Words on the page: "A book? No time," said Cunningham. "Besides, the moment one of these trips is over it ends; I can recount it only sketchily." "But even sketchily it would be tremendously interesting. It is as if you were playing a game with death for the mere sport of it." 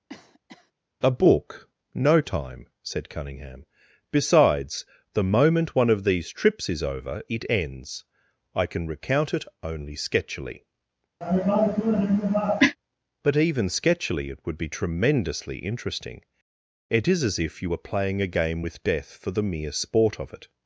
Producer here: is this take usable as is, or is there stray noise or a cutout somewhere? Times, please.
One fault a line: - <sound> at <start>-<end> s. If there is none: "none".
- cough at 0.1-0.7 s
- cough at 11.2-12.8 s